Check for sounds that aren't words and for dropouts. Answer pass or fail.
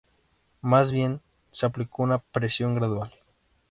pass